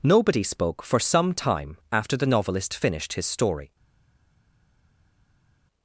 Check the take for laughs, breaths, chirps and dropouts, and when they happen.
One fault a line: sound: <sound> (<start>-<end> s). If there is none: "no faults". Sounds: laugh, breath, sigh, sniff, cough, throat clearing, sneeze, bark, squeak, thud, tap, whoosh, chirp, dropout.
no faults